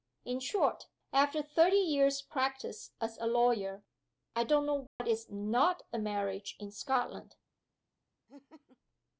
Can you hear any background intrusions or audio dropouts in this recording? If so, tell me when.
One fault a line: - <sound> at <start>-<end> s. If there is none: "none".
- dropout at 4.9-5.0 s
- laugh at 8.3-8.8 s